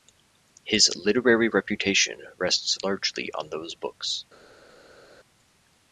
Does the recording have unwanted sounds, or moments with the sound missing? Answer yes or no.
no